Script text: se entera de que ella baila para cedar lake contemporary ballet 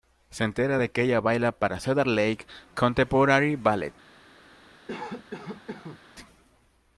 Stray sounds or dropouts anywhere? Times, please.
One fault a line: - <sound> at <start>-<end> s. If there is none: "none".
- cough at 4.9-6.0 s